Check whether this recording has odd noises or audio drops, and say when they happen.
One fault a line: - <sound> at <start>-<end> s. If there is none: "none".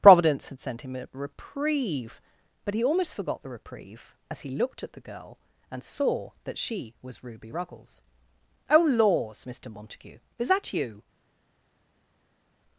none